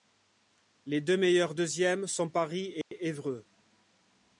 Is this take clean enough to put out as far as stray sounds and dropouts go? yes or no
no